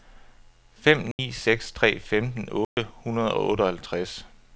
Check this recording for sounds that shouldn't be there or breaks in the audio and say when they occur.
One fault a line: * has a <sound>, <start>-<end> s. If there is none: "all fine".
* has a dropout, 1.1-1.2 s
* has a dropout, 2.6-2.8 s